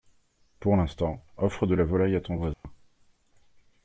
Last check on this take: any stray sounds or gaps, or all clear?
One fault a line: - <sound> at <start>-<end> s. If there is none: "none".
- dropout at 2.5-2.6 s